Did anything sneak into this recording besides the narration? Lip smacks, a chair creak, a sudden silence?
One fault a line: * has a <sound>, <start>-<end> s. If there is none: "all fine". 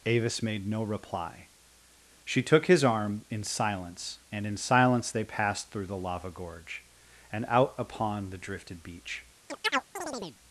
* has a chirp, 9.5-10.4 s